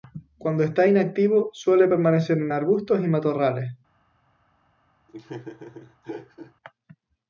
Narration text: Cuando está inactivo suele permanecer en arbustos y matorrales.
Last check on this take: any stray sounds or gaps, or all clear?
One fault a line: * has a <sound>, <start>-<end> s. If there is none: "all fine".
* has a laugh, 5.1-6.5 s